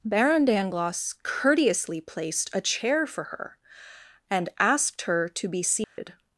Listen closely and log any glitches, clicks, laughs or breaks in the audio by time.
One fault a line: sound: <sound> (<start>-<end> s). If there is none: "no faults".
sound: dropout (5.8-6.0 s)